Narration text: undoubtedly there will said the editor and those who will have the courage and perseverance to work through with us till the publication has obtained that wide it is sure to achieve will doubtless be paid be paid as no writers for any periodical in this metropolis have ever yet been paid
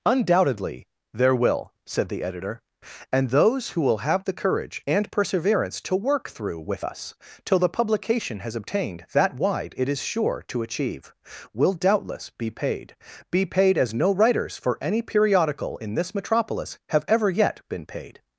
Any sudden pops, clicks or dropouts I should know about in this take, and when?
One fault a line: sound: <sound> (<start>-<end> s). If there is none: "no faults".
no faults